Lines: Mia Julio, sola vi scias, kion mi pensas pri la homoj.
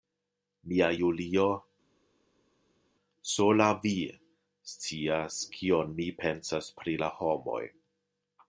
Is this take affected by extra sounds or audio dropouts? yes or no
no